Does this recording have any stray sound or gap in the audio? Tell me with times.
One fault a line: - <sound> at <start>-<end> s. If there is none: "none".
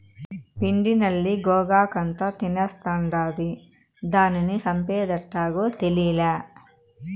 none